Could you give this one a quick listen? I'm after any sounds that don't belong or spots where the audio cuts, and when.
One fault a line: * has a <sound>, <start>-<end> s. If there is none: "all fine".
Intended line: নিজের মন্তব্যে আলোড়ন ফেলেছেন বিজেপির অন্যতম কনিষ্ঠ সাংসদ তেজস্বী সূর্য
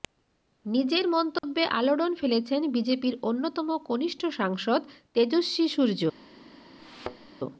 * has a dropout, 1.4-1.4 s
* has a thud, 6.8-7.3 s